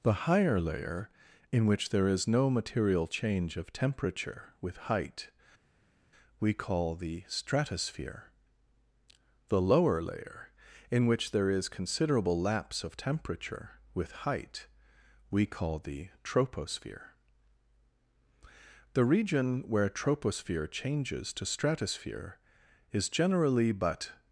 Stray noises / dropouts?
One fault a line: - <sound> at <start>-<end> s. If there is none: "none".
none